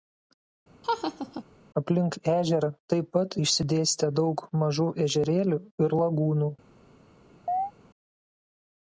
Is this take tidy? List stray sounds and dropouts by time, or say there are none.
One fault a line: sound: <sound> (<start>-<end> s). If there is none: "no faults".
sound: laugh (0.8-1.4 s)
sound: chirp (7.5-7.7 s)